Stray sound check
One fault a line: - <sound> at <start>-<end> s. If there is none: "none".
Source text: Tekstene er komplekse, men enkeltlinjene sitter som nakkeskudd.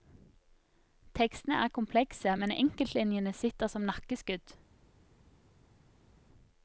none